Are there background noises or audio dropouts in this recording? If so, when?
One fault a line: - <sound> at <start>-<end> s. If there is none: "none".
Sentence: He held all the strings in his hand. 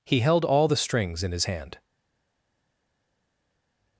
none